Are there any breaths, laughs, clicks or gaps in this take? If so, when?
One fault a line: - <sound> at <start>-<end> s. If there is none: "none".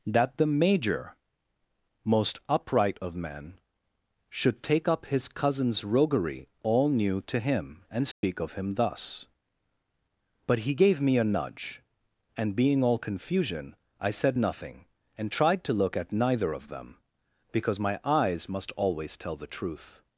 - dropout at 8.1-8.2 s